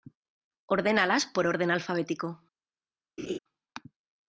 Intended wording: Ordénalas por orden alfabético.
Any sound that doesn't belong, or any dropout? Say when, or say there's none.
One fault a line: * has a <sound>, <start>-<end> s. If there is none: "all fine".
* has a laugh, 3.2-3.4 s